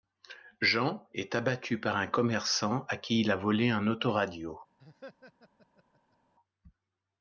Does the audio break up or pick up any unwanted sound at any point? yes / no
yes